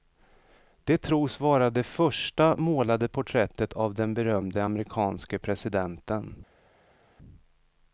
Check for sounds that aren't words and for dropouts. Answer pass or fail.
pass